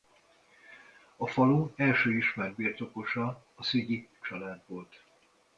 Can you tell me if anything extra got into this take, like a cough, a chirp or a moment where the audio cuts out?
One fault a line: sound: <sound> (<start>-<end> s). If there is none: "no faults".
no faults